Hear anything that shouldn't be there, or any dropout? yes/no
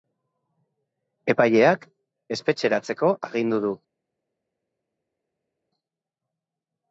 no